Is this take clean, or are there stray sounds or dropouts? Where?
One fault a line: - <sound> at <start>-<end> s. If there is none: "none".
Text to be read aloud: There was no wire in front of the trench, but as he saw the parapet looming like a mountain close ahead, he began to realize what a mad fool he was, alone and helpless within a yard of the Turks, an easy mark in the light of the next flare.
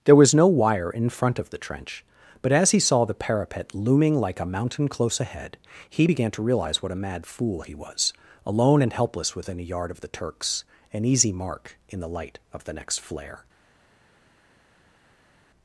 none